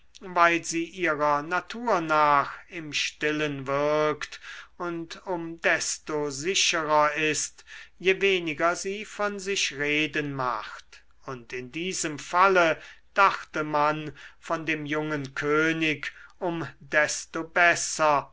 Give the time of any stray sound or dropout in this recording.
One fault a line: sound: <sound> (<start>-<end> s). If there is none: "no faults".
no faults